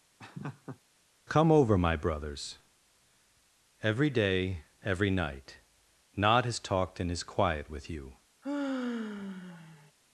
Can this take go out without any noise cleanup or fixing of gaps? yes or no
no